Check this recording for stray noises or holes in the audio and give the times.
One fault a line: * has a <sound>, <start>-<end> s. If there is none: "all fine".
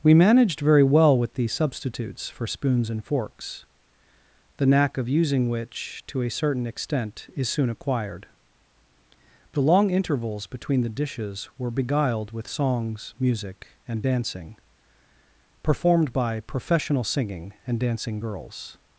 all fine